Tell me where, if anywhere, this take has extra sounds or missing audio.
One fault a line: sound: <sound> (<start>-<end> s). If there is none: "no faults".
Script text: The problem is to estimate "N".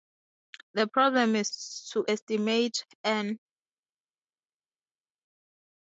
no faults